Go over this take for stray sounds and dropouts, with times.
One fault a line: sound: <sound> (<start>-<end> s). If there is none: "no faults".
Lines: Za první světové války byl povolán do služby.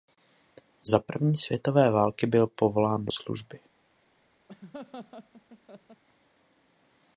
sound: laugh (4.5-6.0 s)